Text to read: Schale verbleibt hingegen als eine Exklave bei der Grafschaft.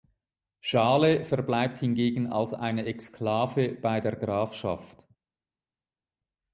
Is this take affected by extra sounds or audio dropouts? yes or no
no